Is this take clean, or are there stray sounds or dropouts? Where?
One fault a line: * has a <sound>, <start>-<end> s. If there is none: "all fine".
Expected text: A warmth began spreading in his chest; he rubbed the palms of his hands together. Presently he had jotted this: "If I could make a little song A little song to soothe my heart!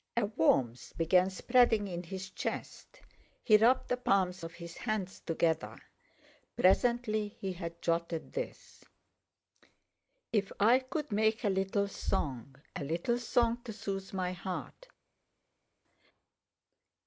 all fine